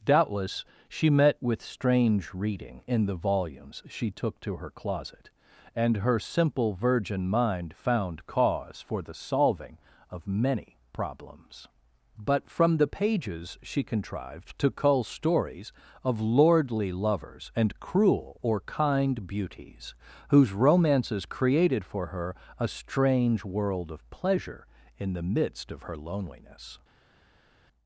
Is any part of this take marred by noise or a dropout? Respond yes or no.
no